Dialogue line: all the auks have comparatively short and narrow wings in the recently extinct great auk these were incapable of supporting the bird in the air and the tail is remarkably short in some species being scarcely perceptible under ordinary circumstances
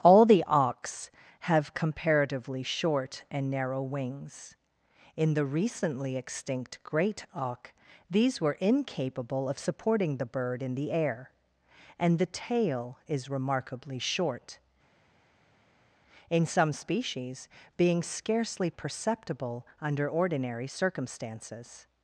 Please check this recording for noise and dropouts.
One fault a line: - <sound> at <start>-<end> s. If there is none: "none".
none